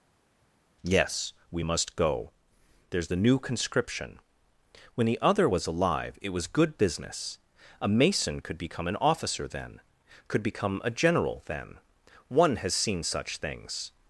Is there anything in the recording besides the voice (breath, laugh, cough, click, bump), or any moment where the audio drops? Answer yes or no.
no